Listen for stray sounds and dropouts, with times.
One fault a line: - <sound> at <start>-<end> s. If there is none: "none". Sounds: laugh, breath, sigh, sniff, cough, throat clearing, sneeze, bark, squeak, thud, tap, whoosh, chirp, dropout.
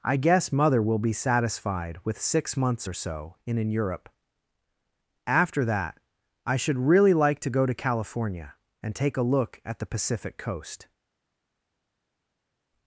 none